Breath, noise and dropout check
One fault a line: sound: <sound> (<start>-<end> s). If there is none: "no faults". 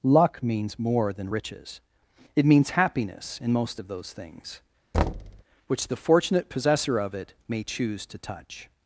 sound: thud (4.9-5.4 s)